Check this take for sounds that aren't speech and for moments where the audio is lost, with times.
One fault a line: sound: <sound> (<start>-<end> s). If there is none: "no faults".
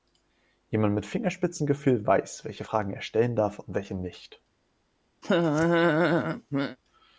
sound: laugh (5.2-6.8 s)